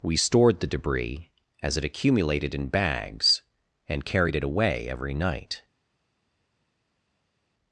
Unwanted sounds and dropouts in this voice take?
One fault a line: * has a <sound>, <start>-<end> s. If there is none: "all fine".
all fine